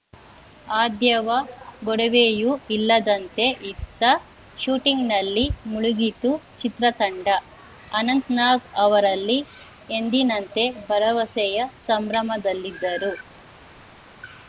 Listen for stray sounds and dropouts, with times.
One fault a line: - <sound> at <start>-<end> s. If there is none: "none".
none